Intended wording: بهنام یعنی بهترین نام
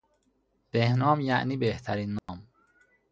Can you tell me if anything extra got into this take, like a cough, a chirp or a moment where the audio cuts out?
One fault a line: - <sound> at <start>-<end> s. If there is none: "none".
- dropout at 2.2-2.3 s